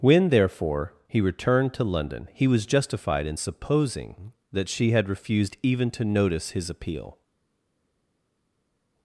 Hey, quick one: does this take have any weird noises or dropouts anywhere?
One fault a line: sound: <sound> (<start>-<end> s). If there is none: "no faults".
no faults